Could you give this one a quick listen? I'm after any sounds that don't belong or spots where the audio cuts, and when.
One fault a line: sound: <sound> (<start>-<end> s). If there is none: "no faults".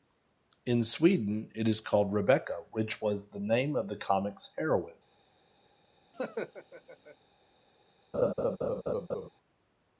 sound: laugh (6.1-7.2 s)
sound: laugh (8.1-9.3 s)